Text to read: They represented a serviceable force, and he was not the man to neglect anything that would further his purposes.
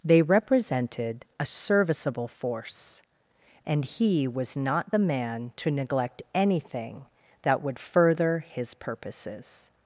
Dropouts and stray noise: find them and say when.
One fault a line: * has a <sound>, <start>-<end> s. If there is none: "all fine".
all fine